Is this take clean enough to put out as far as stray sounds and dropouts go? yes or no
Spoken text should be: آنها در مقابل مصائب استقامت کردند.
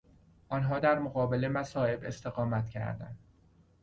yes